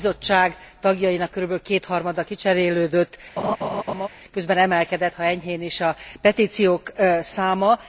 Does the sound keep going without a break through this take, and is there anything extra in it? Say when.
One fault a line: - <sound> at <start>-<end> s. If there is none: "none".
- laugh at 3.4-4.1 s